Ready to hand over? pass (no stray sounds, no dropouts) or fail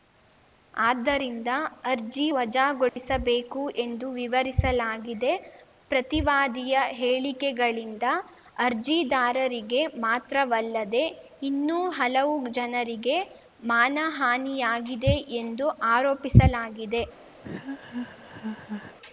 fail